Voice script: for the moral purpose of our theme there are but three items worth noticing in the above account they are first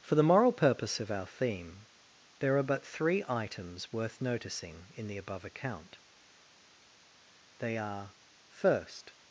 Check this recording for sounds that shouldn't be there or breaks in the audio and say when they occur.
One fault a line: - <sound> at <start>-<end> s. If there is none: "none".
none